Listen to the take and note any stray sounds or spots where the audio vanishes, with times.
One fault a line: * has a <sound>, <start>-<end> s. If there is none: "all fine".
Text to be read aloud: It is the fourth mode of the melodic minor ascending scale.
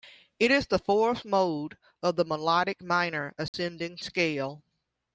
* has a dropout, 3.5-3.5 s